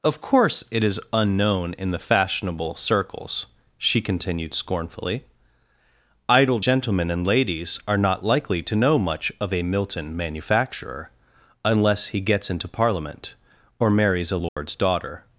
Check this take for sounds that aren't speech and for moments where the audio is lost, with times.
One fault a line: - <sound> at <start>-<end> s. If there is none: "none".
- dropout at 14.5-14.6 s